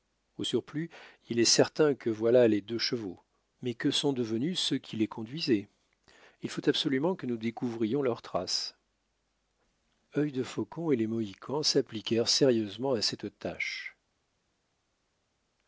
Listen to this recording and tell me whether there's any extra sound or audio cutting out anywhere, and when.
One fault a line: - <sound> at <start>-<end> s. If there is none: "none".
none